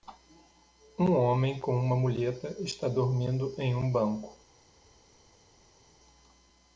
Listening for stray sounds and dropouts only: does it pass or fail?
pass